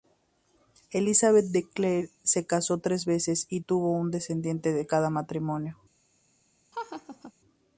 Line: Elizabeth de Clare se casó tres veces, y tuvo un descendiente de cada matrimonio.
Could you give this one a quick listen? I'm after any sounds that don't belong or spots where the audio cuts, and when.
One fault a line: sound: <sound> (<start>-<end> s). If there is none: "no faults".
sound: laugh (6.7-7.3 s)